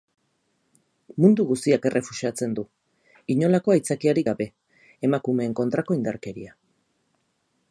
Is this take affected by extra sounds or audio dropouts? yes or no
no